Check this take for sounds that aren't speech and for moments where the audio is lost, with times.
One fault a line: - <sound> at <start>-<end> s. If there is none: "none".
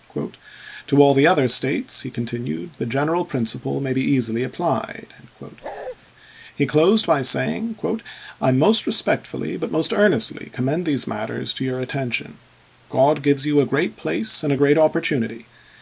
- bark at 5.6-6.0 s